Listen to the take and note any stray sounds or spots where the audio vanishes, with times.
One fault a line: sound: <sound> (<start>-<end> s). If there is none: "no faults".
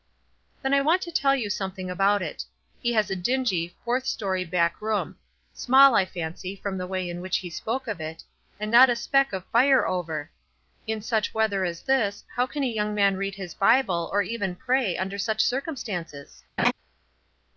sound: laugh (16.6-16.7 s)